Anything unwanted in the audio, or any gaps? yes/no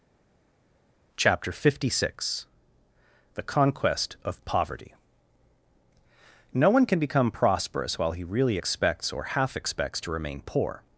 no